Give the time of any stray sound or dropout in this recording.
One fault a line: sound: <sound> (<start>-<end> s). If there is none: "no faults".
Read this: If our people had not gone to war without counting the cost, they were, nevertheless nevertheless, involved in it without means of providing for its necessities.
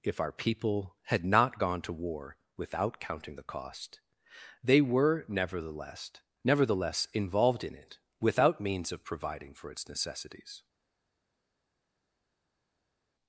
no faults